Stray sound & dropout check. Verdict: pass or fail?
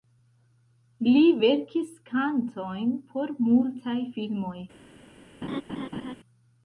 fail